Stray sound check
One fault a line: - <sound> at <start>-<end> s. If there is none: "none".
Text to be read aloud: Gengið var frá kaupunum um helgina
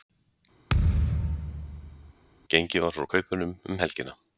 - thud at 0.7-2.1 s